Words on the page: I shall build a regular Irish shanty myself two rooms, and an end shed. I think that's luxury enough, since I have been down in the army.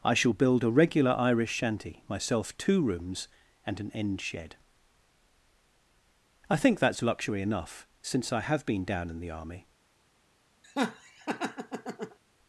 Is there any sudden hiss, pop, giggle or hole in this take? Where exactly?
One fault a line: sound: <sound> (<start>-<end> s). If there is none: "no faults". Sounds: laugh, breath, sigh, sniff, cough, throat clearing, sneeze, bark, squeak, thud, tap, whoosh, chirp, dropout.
sound: laugh (10.6-12.2 s)